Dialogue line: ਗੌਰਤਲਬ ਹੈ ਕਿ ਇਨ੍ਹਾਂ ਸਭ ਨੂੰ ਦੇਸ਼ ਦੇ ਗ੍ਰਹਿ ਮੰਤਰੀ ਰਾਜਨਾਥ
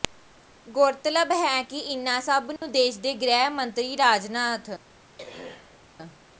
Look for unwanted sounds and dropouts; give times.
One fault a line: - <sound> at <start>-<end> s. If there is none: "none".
- dropout at 2.6-2.6 s
- throat clearing at 5.2-5.8 s